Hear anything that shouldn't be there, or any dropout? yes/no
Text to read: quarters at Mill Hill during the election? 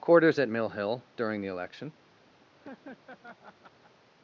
yes